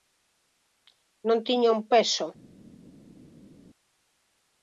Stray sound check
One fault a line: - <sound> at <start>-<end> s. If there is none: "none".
none